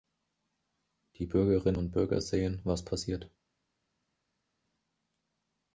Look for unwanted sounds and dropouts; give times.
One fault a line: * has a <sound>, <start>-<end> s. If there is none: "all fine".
all fine